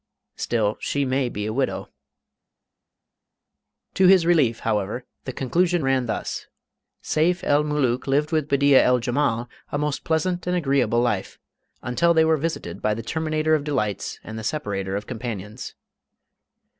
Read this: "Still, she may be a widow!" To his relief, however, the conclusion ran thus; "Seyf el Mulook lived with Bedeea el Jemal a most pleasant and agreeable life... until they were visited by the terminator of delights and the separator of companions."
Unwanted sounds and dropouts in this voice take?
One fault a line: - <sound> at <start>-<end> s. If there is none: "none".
none